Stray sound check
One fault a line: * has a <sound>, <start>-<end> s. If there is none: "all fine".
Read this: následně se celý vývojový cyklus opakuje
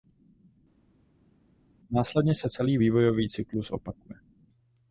all fine